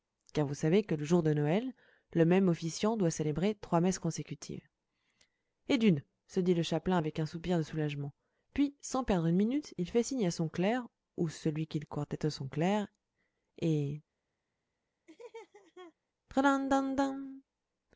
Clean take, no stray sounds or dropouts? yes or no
no